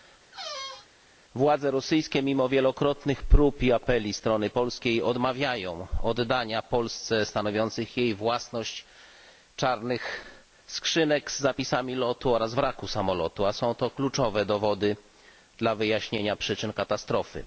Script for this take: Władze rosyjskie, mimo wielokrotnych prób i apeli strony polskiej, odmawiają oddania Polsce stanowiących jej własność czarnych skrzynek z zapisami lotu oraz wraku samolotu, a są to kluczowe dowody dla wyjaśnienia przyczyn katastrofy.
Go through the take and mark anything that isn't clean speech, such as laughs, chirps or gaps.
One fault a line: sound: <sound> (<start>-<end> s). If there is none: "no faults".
sound: squeak (0.3-0.9 s)